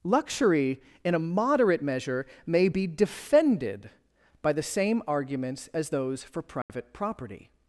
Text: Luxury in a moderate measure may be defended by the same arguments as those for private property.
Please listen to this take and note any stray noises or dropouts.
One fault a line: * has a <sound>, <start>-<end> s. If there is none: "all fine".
* has a dropout, 6.6-6.7 s